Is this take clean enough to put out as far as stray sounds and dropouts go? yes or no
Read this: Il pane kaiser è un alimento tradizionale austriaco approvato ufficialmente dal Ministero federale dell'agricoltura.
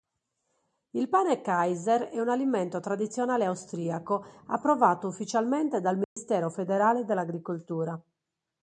no